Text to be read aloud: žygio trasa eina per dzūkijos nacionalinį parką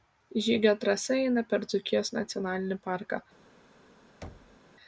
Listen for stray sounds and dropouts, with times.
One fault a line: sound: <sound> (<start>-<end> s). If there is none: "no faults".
sound: thud (4.2-4.6 s)